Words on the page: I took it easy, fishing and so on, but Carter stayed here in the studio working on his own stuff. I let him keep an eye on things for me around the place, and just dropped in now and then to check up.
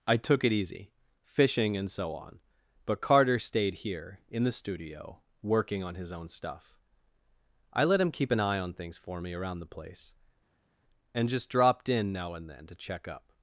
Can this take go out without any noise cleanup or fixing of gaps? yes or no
yes